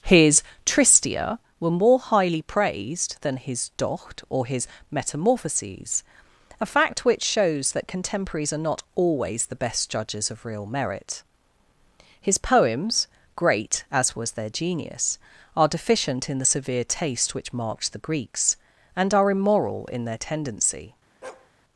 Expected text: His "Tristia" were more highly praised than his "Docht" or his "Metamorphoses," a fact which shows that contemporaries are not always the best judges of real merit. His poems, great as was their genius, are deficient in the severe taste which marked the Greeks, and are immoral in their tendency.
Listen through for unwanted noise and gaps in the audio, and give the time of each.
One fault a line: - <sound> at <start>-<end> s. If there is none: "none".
- bark at 21.2-21.5 s